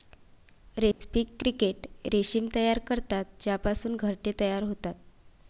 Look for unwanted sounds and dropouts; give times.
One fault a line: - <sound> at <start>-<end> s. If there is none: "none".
- dropout at 0.9-1.0 s